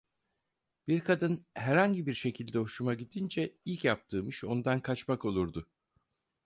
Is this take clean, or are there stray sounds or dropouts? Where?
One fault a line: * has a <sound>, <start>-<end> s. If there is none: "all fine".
all fine